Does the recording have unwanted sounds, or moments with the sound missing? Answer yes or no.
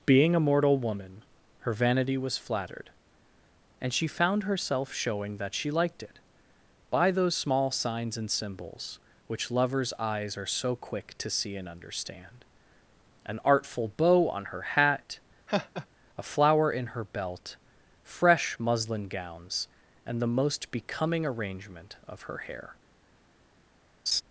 yes